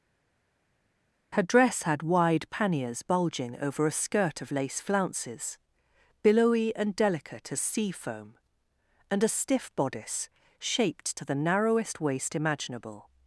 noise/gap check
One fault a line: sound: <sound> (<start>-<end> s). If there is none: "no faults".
no faults